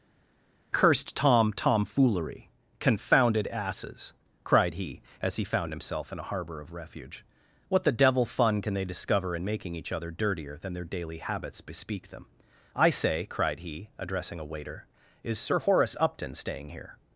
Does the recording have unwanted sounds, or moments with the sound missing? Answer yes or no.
no